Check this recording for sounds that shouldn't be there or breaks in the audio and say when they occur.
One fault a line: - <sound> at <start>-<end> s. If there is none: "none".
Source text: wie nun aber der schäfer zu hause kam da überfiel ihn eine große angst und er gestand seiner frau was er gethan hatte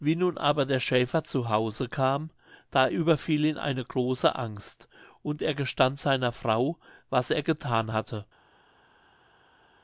none